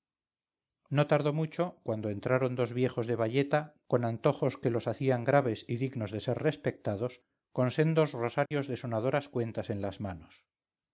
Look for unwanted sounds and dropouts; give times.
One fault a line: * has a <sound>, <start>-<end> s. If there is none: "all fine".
* has a dropout, 8.5-8.5 s